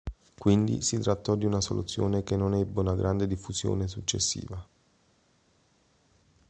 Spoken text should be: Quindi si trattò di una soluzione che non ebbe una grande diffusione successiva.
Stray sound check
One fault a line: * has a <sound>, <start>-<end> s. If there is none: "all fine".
all fine